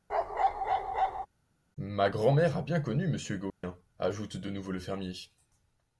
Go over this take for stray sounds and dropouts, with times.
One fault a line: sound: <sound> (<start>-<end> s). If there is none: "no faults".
sound: bark (0.1-1.3 s)
sound: dropout (3.5-3.6 s)